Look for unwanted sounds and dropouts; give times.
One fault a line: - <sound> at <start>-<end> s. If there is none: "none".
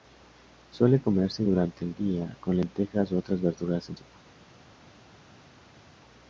none